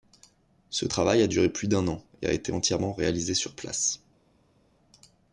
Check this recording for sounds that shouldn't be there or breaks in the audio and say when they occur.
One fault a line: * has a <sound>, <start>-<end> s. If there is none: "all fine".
all fine